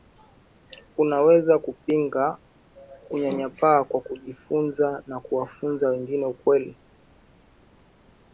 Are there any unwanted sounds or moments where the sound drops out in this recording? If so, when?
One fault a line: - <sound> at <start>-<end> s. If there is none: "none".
none